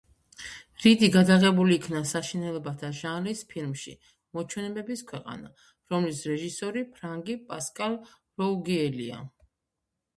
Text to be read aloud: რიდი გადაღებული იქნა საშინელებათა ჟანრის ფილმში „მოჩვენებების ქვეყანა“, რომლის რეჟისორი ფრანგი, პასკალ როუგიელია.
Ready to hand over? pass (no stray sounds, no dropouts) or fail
pass